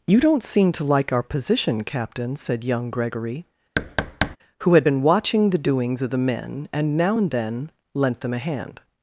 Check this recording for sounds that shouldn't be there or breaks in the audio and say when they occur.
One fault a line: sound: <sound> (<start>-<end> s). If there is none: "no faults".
sound: thud (3.8-4.4 s)